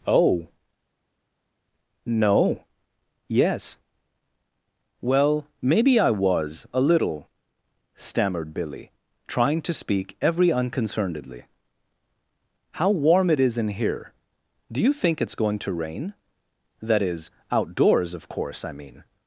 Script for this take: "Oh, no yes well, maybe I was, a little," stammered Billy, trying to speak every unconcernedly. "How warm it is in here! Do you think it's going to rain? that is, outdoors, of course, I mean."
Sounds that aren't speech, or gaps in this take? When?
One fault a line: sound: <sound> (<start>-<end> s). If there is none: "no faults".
no faults